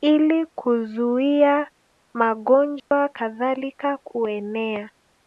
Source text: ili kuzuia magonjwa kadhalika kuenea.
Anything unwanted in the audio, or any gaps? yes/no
yes